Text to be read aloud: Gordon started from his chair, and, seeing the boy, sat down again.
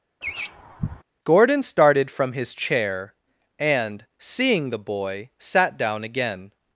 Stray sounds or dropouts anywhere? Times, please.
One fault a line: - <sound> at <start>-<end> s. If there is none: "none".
- laugh at 0.2-1.0 s